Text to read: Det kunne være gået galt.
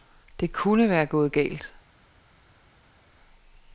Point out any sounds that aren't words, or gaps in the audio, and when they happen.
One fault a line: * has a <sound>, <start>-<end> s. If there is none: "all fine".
all fine